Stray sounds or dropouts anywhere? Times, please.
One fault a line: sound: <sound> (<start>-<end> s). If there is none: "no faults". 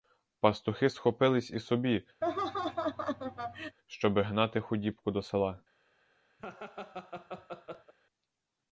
sound: laugh (2.2-3.8 s)
sound: laugh (6.4-7.9 s)